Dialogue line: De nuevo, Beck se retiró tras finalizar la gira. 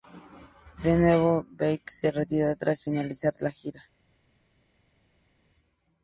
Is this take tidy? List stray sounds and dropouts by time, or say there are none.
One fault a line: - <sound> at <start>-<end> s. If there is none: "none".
none